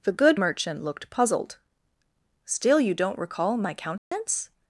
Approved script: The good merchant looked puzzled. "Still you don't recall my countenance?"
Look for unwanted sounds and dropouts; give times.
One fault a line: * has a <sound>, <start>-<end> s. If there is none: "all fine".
* has a dropout, 4.0-4.1 s